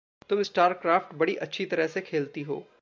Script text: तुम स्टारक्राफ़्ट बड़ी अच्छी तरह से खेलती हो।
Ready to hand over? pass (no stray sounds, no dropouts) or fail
pass